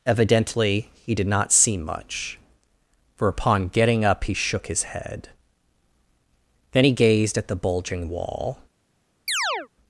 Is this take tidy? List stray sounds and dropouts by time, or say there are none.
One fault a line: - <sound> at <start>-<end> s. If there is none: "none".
- chirp at 9.3-9.7 s